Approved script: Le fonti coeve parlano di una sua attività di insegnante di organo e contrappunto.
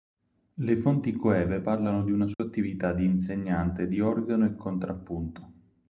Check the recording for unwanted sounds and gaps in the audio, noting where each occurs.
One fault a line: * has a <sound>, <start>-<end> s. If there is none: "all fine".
* has a dropout, 2.3-2.4 s